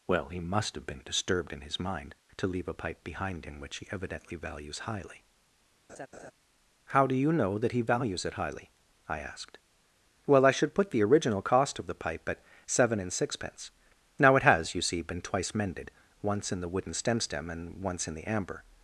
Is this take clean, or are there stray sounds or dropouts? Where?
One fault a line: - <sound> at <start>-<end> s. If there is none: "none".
- laugh at 5.9-6.3 s